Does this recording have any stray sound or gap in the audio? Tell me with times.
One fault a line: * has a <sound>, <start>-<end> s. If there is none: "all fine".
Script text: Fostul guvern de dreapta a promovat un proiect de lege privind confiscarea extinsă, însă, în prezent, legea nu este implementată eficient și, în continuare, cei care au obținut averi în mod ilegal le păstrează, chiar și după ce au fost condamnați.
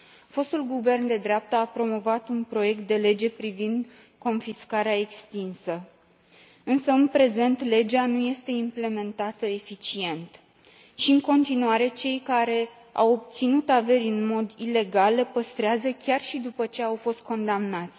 all fine